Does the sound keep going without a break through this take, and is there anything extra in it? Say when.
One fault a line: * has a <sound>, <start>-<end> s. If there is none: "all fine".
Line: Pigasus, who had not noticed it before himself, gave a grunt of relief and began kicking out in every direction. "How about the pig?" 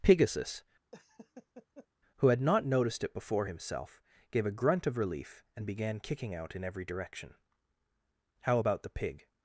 * has a laugh, 0.9-1.9 s